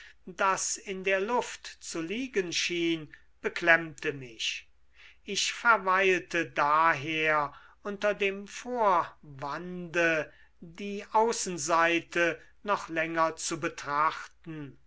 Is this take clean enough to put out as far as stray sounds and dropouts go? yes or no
yes